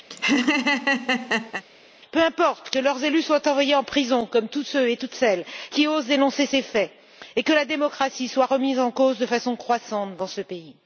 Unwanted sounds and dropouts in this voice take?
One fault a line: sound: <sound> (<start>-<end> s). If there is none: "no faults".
sound: laugh (0.1-1.6 s)